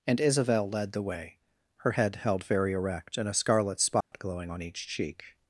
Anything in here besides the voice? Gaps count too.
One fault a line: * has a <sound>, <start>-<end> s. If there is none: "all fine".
* has a dropout, 4.0-4.1 s